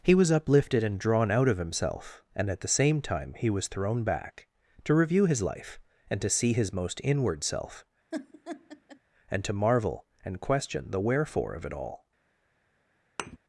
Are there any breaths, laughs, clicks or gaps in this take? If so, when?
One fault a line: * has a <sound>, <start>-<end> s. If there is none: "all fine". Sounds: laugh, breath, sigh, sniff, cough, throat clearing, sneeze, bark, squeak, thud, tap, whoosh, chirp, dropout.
* has a laugh, 8.1-9.0 s
* has a thud, 13.2-13.4 s